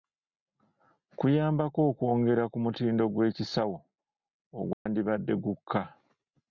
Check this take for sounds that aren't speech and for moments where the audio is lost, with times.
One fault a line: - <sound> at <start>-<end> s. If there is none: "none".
- dropout at 4.7-4.9 s